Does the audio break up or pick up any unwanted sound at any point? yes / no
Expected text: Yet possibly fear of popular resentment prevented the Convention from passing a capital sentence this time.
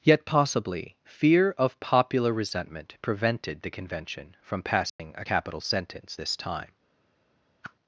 yes